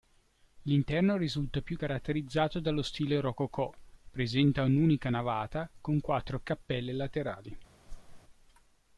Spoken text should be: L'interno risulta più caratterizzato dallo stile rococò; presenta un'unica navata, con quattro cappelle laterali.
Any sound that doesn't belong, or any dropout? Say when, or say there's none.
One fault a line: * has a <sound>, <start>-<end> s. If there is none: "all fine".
* has a whoosh, 7.9-8.2 s